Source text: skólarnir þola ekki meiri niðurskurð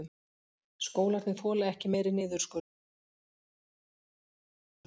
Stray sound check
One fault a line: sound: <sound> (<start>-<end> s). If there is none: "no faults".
no faults